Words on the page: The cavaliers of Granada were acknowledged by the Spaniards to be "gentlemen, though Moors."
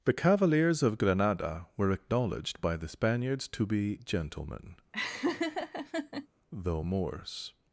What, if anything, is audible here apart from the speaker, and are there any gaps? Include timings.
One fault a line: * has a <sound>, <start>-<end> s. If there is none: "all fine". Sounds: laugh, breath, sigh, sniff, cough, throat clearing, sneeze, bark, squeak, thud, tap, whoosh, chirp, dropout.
* has a laugh, 4.9-6.3 s